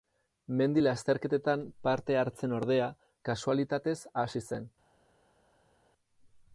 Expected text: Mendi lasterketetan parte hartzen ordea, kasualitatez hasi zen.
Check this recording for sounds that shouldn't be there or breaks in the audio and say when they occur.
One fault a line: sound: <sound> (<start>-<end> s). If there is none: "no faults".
no faults